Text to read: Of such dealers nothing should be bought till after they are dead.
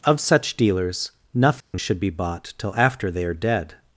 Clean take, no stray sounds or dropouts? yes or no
no